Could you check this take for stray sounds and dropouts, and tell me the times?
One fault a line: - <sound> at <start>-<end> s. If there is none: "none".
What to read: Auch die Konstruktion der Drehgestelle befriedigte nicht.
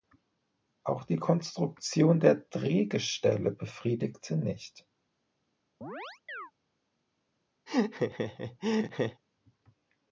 - chirp at 5.8-6.5 s
- laugh at 7.7-9.2 s